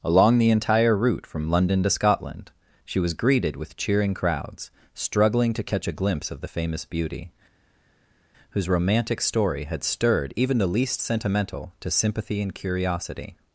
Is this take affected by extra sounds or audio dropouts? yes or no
no